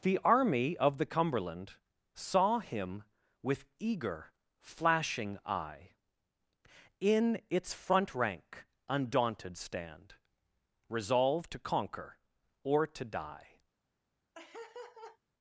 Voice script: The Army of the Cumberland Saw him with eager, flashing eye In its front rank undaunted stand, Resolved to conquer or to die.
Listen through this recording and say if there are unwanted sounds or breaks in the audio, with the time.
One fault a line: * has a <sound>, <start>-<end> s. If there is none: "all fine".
* has a laugh, 14.3-15.2 s